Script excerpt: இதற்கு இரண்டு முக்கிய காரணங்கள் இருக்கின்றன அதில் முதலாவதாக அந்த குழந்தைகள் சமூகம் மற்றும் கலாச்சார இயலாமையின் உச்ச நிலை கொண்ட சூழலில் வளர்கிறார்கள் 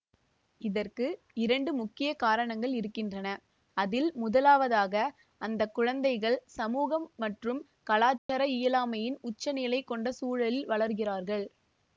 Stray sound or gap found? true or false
true